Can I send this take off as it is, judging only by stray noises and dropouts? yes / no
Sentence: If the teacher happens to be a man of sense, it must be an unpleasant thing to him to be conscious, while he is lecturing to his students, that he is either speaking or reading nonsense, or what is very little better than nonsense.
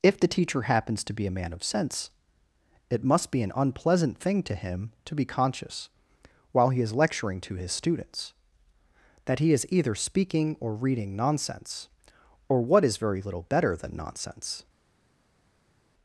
yes